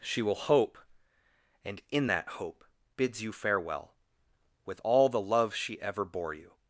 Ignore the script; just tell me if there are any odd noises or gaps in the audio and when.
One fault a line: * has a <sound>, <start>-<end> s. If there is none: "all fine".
all fine